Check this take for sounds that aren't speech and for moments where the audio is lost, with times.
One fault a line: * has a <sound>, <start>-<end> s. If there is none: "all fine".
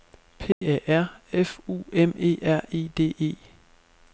* has a dropout, 0.5-0.6 s